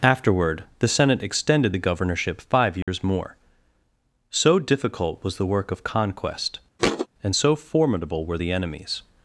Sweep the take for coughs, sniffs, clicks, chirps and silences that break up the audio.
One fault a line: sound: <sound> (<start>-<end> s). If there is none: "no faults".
sound: dropout (2.8-2.9 s)
sound: thud (6.8-7.1 s)